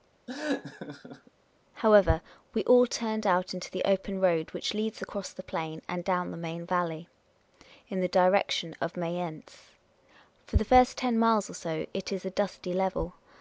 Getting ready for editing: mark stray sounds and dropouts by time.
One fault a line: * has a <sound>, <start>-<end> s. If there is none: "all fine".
* has a laugh, 0.3-1.3 s